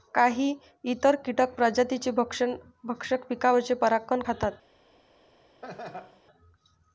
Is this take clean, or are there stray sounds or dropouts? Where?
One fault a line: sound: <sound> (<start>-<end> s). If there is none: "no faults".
sound: laugh (5.6-6.2 s)